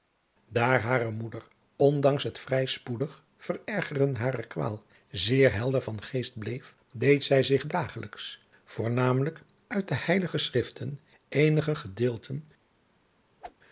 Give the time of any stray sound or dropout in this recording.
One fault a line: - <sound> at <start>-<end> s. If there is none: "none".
- whoosh at 13.4-13.6 s